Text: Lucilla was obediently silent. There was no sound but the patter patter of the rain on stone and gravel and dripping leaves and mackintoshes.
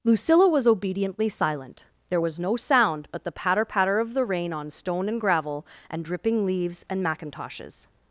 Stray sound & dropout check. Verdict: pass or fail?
pass